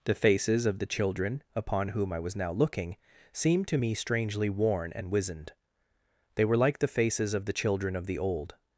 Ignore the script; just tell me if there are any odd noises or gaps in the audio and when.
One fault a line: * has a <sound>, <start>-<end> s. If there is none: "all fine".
all fine